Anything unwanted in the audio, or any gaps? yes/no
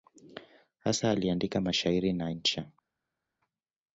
no